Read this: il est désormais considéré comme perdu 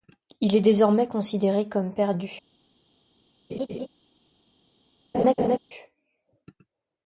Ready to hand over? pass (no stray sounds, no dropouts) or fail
fail